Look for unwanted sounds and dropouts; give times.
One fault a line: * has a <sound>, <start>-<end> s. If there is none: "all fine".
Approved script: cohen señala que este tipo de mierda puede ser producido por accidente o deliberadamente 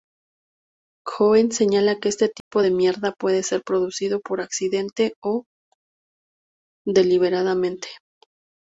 * has a dropout, 2.4-2.5 s